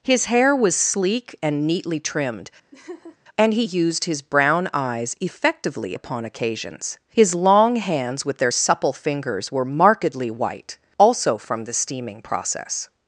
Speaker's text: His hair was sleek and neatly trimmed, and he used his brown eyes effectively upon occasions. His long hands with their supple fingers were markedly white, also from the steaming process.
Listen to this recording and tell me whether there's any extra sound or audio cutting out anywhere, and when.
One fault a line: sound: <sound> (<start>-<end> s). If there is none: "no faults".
sound: laugh (2.7-3.2 s)